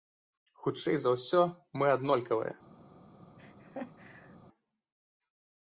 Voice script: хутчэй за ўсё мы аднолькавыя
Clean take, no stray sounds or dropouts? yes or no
no